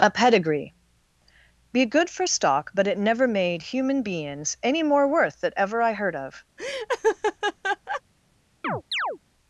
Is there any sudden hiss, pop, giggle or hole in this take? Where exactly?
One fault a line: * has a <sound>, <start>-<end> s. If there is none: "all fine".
* has a laugh, 6.6-8.0 s
* has a chirp, 8.6-9.2 s